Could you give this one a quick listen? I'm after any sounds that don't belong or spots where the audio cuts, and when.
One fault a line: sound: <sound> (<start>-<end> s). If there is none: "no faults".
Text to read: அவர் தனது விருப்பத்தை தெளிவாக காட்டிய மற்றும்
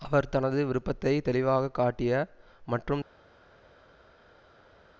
no faults